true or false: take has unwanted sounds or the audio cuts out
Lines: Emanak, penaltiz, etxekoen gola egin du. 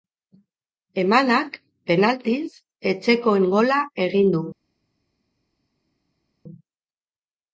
false